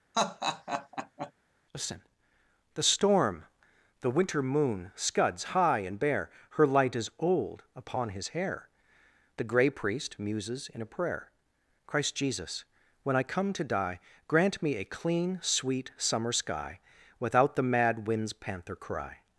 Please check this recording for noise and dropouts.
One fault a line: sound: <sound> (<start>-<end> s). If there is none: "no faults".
sound: laugh (0.1-1.3 s)